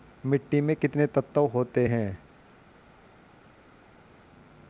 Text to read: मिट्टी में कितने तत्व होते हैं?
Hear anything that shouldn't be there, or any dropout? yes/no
no